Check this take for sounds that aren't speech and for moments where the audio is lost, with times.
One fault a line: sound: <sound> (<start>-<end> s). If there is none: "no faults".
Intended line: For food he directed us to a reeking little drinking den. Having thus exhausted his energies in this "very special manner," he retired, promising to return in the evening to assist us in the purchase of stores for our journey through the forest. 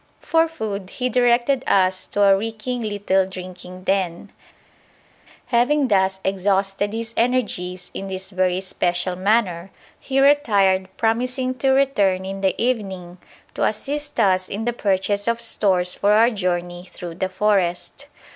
no faults